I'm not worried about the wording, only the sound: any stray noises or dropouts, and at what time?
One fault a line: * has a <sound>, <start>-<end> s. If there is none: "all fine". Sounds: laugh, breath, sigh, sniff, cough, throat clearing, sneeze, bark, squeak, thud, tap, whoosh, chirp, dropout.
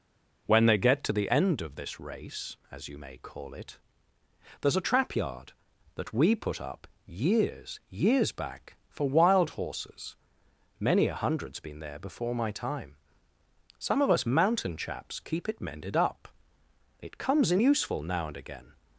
all fine